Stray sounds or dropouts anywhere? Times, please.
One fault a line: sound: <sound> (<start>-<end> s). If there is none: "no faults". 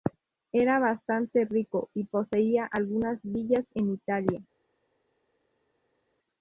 no faults